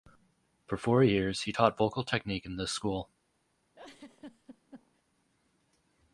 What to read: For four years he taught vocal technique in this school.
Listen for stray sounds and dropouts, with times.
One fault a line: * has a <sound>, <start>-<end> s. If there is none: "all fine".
* has a laugh, 3.7-5.0 s